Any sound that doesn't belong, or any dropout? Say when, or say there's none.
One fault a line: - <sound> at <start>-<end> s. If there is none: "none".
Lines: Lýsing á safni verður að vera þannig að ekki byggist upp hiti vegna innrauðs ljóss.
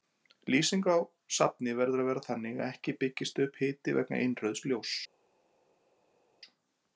none